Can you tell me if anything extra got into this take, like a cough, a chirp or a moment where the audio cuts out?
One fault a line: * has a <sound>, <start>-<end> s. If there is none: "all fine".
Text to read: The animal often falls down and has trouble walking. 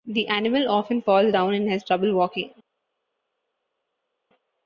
all fine